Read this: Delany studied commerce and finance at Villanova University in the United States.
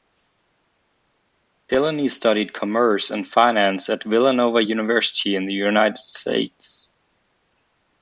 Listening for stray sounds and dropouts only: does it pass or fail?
pass